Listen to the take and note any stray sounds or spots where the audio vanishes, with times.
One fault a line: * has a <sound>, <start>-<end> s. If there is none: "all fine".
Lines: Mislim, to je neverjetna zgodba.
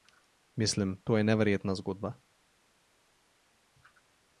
all fine